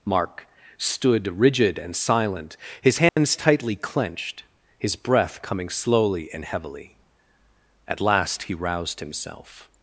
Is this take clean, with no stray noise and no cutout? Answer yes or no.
no